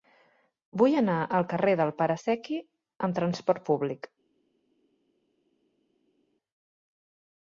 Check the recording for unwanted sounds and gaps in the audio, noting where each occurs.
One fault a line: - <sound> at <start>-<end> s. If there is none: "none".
none